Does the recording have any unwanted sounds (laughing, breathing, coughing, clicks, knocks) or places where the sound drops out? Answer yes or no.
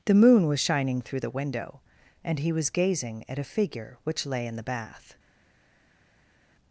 no